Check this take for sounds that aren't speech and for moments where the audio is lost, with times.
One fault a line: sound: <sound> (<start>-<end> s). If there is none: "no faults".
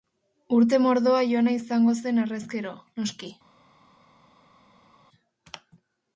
no faults